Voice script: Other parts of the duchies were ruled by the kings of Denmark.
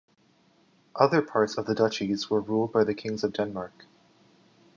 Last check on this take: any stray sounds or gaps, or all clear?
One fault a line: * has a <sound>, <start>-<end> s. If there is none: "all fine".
all fine